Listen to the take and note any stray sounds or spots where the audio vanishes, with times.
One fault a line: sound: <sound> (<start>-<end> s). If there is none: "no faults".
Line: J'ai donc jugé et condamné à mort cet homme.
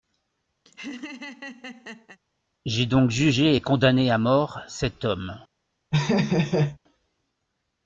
sound: laugh (0.7-2.2 s)
sound: laugh (5.9-6.8 s)